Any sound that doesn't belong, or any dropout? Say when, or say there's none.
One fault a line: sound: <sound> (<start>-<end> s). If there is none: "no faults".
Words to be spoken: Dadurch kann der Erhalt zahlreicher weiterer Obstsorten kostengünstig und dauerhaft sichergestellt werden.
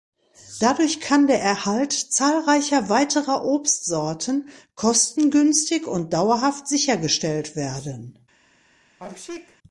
sound: sneeze (9.0-9.6 s)